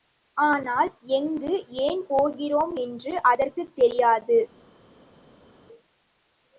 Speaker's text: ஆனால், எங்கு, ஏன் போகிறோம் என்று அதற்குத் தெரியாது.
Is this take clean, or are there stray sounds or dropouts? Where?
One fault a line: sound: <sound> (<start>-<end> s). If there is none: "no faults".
no faults